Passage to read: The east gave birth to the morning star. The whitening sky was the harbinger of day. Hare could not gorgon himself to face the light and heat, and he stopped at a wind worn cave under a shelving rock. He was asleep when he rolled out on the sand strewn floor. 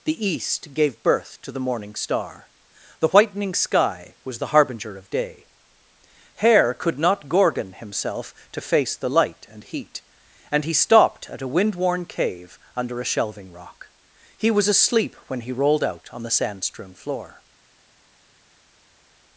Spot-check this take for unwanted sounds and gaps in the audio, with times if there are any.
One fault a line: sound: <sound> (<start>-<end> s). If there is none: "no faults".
no faults